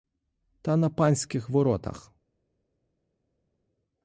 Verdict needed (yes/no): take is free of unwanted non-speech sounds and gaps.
yes